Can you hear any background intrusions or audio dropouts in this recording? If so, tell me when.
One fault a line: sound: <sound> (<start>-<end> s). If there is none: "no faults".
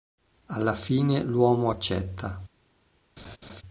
sound: laugh (3.2-3.6 s)